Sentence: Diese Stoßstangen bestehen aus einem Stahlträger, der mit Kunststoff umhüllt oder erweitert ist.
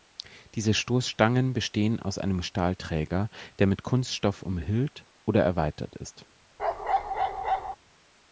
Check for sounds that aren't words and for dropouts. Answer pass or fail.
fail